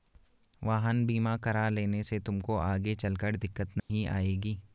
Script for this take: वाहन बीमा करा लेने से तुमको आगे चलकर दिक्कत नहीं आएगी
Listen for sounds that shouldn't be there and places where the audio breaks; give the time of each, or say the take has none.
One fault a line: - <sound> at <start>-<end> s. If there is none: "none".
- dropout at 3.8-3.9 s